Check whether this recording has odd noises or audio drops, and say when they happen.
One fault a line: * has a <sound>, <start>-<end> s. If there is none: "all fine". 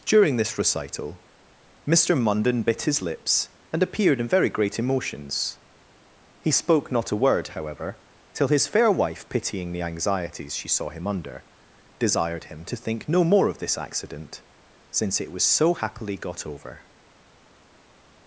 all fine